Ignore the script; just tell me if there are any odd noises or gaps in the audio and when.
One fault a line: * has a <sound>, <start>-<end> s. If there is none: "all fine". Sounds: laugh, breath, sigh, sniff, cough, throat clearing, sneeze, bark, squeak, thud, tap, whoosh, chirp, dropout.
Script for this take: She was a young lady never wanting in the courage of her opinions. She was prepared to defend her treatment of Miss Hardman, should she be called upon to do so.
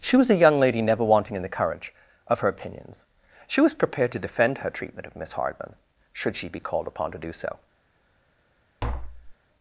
* has a tap, 8.8-9.4 s